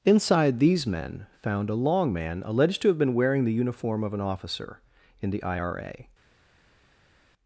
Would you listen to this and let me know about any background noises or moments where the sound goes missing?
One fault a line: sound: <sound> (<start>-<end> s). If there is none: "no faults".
no faults